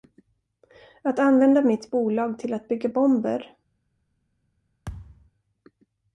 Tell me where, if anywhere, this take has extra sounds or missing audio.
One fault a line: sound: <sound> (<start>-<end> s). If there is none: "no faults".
sound: thud (4.9-5.3 s)